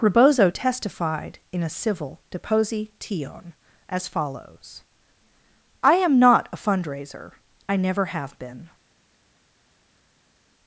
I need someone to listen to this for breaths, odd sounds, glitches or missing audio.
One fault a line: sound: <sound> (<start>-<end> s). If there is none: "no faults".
no faults